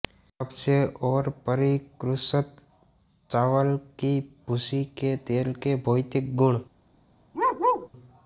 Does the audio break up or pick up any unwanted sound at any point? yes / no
yes